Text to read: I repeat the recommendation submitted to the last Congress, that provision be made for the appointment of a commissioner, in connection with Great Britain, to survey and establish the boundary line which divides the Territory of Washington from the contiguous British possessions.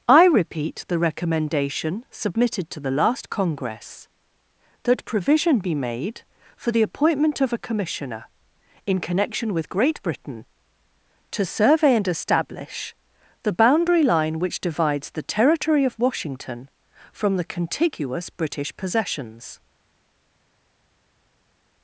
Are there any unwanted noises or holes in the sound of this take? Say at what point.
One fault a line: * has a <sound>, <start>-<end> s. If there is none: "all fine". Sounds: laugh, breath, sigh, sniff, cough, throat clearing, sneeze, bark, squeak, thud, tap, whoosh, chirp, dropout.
all fine